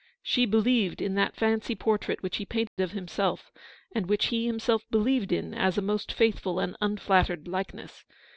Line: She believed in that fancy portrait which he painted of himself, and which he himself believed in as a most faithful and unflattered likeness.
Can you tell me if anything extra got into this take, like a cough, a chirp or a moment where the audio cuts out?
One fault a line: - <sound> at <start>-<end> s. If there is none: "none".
- dropout at 2.7-2.8 s